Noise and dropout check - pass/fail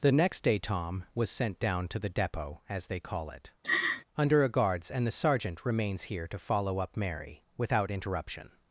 fail